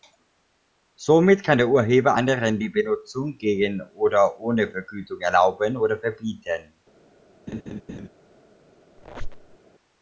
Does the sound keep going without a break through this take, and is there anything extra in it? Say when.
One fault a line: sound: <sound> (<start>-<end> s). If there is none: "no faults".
sound: laugh (7.5-8.1 s)
sound: squeak (9.0-9.6 s)